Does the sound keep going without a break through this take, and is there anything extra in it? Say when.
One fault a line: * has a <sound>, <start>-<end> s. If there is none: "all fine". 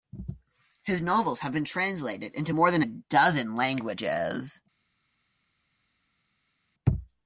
all fine